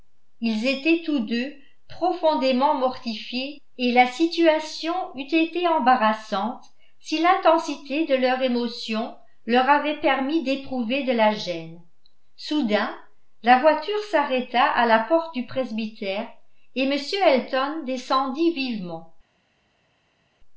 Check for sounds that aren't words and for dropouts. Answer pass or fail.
pass